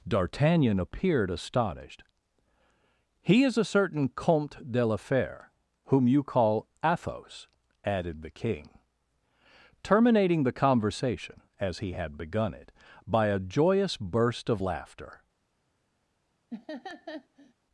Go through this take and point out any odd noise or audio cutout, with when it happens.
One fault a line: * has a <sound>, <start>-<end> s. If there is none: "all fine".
* has a laugh, 16.5-17.5 s